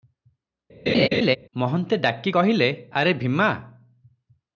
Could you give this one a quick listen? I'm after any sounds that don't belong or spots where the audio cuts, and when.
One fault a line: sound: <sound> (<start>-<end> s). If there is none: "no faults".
sound: laugh (0.9-1.4 s)